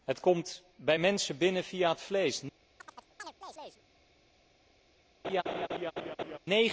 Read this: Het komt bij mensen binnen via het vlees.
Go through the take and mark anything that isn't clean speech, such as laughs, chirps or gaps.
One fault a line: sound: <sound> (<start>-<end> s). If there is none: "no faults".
sound: chirp (2.8-3.8 s)
sound: laugh (5.2-6.4 s)